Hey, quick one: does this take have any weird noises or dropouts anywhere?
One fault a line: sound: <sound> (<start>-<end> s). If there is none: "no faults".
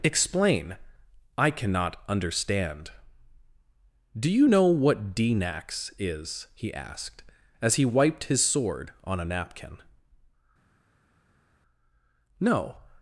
no faults